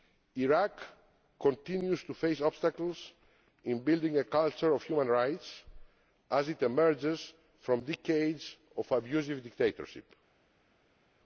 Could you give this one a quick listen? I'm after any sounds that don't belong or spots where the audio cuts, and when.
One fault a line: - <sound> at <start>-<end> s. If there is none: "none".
none